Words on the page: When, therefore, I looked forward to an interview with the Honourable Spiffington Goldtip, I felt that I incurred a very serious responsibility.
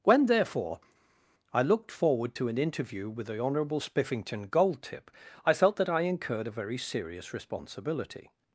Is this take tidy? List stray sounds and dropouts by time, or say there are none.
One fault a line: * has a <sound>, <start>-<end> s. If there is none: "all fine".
all fine